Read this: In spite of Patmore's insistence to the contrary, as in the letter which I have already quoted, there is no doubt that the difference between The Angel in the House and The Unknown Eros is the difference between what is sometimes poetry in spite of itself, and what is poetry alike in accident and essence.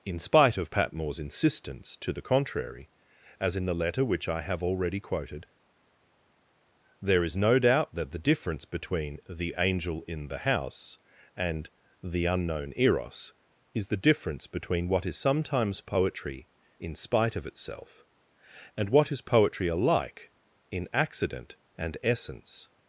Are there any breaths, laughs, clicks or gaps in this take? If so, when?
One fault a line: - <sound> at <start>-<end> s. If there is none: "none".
none